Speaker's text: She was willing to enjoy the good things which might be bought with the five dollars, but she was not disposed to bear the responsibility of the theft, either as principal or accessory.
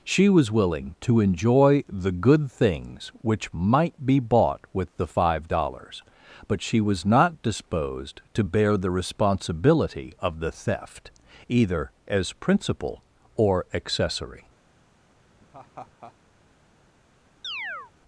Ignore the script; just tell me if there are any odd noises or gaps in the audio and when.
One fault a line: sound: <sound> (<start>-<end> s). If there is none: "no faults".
sound: laugh (15.4-16.1 s)
sound: chirp (17.4-17.9 s)